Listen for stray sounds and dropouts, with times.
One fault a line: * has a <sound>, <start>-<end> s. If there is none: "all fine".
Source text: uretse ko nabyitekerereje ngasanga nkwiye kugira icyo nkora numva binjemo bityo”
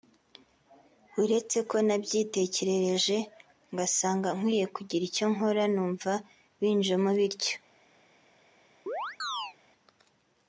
* has a chirp, 8.9-9.6 s